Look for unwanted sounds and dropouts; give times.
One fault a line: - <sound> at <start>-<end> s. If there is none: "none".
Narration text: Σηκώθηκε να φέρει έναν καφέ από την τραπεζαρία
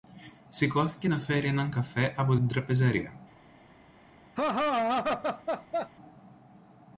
- laugh at 4.4-5.9 s